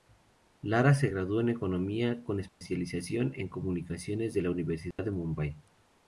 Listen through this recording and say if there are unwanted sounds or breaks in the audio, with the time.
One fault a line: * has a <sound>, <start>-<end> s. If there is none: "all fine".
* has a dropout, 2.5-2.6 s
* has a dropout, 4.9-5.0 s